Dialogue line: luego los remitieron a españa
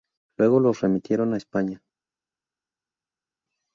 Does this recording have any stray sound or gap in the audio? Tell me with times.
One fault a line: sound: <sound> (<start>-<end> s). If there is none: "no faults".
no faults